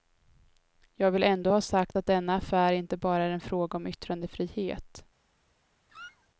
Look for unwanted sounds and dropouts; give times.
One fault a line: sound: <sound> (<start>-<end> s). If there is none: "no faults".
sound: squeak (5.9-6.3 s)